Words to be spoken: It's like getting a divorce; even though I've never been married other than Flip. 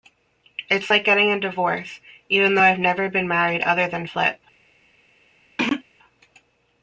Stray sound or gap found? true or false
true